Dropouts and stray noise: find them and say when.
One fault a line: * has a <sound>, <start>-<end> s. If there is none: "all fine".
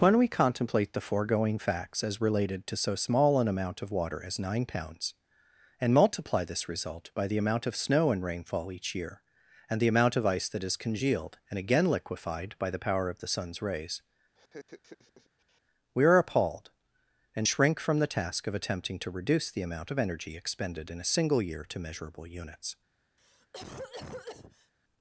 * has a laugh, 14.3-15.6 s
* has a cough, 23.2-24.7 s